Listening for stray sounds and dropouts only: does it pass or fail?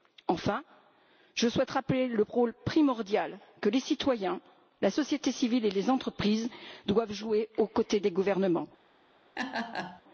fail